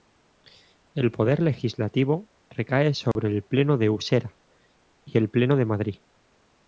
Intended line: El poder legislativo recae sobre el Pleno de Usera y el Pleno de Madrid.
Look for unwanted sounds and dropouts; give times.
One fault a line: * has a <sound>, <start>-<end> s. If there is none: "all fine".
* has a dropout, 3.1-3.2 s